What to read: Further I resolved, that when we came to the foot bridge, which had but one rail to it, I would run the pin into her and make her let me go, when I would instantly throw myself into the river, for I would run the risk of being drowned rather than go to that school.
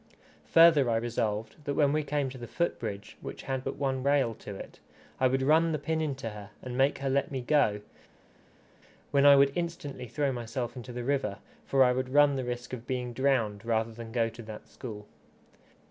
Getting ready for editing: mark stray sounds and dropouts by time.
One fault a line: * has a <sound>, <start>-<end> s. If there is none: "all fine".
all fine